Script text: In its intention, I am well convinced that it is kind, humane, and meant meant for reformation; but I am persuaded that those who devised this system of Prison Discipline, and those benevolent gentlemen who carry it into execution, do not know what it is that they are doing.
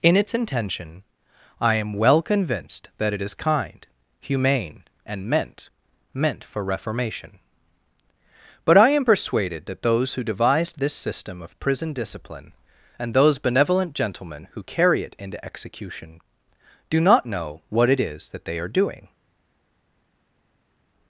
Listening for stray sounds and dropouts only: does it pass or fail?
pass